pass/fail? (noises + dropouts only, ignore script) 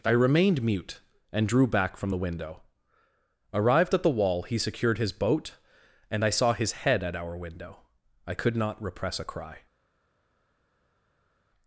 pass